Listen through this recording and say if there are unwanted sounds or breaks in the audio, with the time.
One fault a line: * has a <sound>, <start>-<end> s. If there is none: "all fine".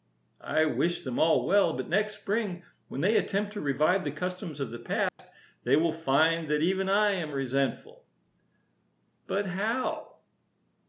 * has a dropout, 5.1-5.2 s